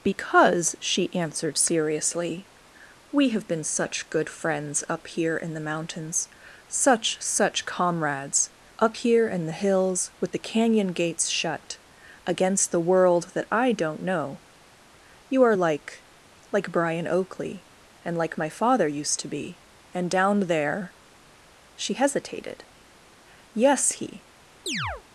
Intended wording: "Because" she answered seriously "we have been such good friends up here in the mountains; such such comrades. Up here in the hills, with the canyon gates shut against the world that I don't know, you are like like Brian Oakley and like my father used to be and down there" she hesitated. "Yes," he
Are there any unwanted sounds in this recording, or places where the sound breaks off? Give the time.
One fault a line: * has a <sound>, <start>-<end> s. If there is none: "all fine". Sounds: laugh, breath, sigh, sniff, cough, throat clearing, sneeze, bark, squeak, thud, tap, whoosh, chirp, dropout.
* has a chirp, 24.7-25.0 s